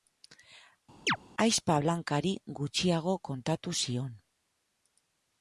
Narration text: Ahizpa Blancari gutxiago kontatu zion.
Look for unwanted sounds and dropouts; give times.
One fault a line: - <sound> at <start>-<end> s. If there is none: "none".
- chirp at 1.1-1.2 s